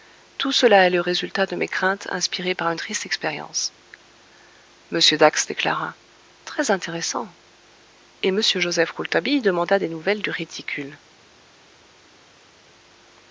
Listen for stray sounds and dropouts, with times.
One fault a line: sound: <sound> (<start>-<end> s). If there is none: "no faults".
no faults